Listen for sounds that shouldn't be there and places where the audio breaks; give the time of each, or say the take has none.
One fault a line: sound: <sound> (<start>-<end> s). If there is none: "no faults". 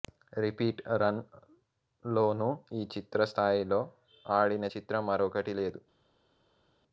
no faults